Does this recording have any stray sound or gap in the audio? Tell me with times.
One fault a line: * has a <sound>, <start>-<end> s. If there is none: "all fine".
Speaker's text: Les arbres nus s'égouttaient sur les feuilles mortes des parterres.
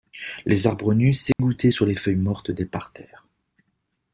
* has a dropout, 1.3-1.4 s